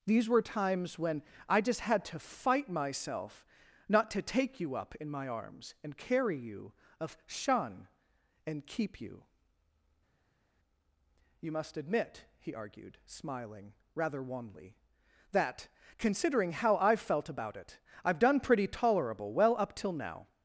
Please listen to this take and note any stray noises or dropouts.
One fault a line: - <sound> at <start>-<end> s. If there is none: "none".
none